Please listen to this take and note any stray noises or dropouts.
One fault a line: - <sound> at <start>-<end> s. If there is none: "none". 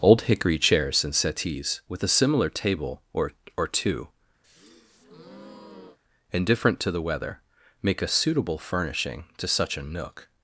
- breath at 4.4-6.0 s